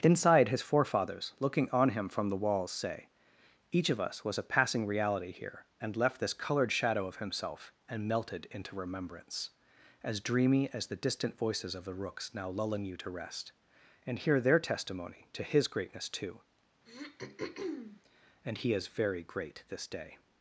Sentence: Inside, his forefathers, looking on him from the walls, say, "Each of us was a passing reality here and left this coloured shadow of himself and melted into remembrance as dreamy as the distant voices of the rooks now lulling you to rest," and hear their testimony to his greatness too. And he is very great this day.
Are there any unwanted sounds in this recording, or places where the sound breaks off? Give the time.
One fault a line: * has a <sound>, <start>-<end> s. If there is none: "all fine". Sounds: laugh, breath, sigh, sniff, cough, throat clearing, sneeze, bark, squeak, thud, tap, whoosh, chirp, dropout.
* has a throat clearing, 16.9-18.0 s